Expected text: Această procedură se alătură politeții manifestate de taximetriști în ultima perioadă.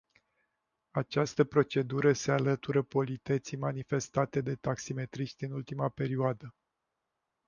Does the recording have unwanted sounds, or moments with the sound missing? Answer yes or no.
no